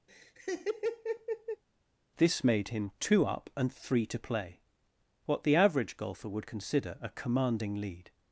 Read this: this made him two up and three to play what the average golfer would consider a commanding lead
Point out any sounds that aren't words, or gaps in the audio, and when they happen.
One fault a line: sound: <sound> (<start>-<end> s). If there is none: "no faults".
sound: laugh (0.1-1.6 s)